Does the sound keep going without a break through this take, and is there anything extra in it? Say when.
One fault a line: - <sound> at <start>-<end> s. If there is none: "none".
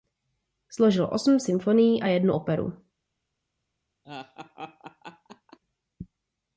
- laugh at 4.0-5.6 s